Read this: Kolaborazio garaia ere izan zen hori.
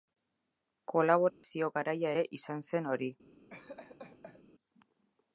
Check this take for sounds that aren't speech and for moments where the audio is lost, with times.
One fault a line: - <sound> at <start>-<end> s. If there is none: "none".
- dropout at 1.3-1.4 s
- laugh at 3.5-4.4 s